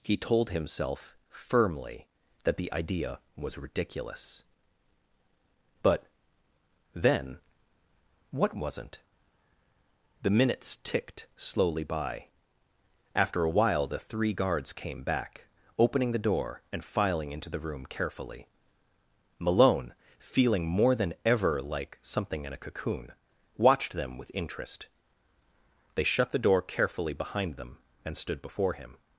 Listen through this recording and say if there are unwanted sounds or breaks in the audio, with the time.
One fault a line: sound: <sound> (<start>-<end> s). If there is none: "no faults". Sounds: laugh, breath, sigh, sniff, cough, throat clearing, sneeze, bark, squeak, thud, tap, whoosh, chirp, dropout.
no faults